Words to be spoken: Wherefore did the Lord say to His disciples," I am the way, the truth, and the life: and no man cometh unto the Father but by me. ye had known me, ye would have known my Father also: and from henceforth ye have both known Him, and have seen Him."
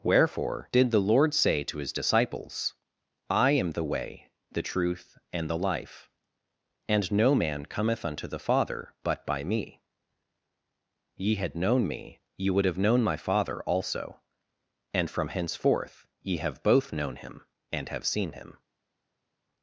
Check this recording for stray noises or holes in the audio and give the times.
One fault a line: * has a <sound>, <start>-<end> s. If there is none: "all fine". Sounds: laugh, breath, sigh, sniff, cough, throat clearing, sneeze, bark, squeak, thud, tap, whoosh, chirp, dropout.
all fine